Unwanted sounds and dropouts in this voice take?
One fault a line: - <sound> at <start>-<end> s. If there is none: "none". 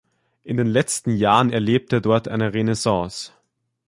none